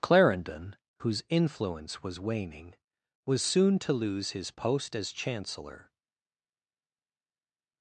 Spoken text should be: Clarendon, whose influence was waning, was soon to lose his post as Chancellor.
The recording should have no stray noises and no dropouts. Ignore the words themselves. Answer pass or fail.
pass